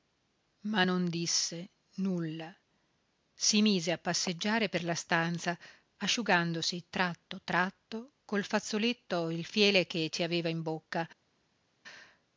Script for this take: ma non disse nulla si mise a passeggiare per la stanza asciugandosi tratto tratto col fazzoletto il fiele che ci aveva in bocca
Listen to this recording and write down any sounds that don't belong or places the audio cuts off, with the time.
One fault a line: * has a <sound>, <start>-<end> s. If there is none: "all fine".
all fine